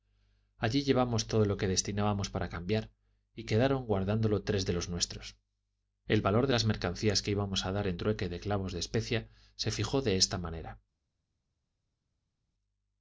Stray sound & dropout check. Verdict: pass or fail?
pass